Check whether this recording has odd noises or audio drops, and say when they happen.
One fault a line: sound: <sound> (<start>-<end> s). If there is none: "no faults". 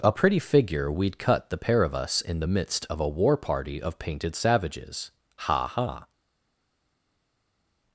no faults